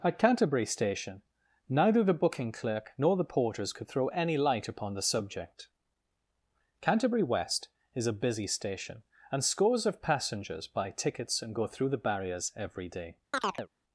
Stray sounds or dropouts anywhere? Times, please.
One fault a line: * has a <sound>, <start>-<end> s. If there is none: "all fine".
* has a chirp, 13.3-13.7 s